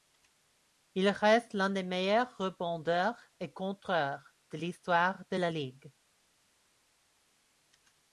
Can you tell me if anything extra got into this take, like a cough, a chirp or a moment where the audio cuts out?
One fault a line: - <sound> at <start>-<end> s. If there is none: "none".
none